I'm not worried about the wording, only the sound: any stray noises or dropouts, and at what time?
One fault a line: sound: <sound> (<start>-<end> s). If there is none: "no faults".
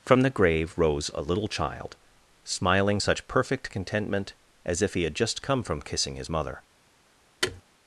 sound: thud (7.4-7.6 s)